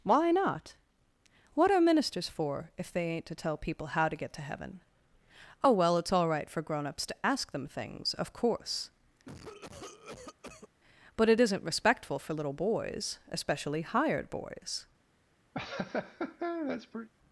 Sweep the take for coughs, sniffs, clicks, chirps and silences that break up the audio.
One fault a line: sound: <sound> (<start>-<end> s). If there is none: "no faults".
sound: cough (9.3-10.7 s)
sound: laugh (15.5-17.1 s)